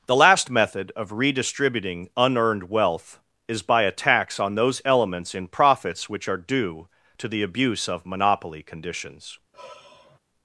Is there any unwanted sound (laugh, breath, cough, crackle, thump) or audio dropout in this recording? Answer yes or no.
yes